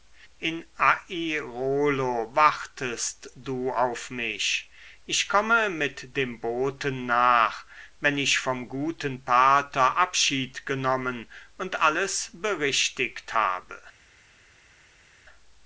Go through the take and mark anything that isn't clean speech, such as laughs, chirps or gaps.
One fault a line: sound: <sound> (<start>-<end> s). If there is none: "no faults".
no faults